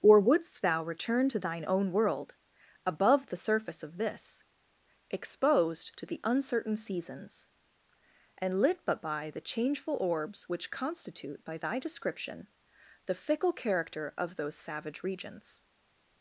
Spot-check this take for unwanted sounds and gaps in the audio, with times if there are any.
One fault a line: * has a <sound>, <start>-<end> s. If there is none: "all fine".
all fine